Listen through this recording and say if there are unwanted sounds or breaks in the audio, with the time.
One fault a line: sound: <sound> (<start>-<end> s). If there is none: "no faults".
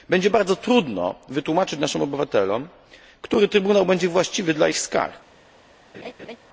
sound: laugh (5.9-6.4 s)